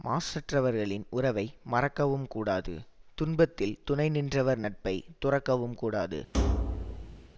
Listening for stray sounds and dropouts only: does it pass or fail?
fail